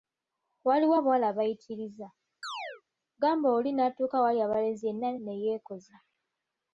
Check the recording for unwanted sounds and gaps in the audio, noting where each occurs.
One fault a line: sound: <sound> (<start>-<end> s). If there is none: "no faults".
sound: chirp (2.4-2.8 s)